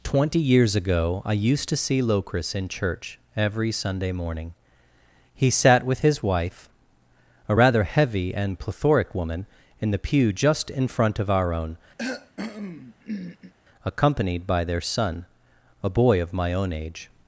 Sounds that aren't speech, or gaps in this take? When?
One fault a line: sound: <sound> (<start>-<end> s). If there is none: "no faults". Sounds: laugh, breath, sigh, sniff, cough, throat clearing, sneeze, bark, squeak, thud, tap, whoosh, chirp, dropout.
sound: cough (12.0-13.5 s)